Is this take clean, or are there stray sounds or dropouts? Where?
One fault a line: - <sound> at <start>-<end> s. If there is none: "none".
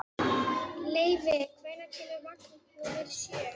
none